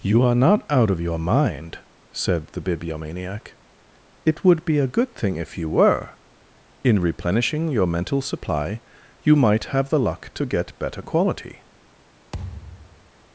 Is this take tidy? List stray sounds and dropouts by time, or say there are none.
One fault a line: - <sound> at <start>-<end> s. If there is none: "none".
- thud at 12.3-13.1 s